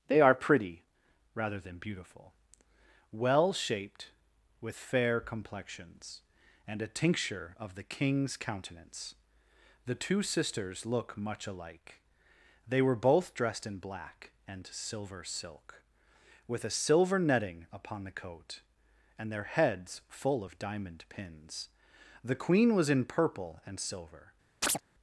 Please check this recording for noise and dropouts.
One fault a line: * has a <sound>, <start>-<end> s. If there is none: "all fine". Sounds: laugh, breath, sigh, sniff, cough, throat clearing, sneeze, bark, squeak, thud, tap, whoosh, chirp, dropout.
* has a chirp, 24.6-24.8 s